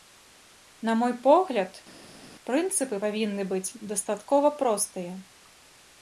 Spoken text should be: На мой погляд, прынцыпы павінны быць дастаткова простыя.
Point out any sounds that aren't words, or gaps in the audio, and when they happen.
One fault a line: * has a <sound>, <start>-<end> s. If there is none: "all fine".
all fine